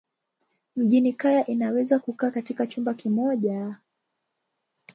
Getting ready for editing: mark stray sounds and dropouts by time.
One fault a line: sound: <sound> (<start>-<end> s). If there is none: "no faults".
no faults